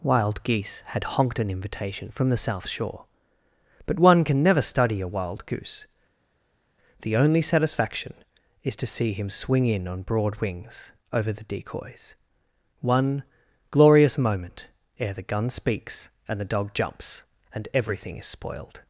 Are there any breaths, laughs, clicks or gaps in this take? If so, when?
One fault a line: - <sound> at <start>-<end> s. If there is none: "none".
none